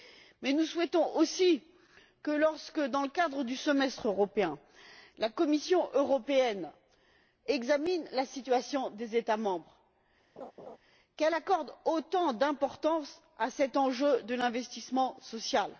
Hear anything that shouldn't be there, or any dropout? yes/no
yes